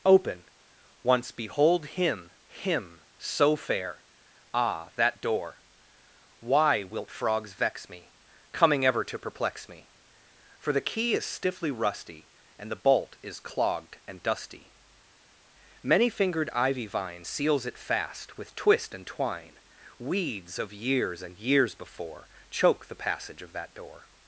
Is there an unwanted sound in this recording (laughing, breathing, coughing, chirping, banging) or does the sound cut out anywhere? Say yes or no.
no